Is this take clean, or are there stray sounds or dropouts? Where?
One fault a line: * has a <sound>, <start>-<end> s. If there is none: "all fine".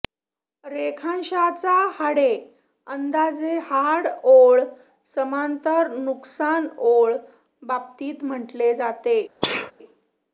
* has a sneeze, 9.4-9.7 s